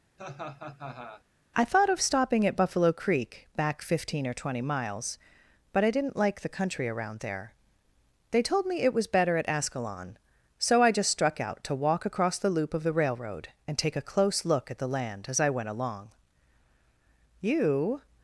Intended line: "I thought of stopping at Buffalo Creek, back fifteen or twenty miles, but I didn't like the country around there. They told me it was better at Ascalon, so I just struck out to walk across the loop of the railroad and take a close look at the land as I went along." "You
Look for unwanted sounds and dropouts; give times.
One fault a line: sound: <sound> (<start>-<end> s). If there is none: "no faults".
sound: laugh (0.2-1.2 s)